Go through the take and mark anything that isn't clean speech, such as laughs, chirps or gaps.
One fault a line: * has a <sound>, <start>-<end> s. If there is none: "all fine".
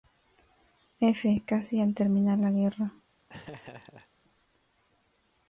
* has a laugh, 3.3-4.1 s